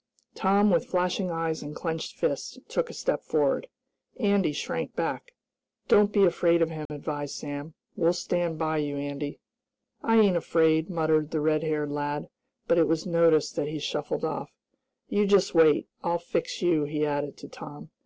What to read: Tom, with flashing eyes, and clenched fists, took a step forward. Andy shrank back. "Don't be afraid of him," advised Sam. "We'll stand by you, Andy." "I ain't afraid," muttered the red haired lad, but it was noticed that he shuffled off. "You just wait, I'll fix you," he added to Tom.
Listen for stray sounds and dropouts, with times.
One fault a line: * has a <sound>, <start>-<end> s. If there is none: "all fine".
* has a dropout, 6.9-6.9 s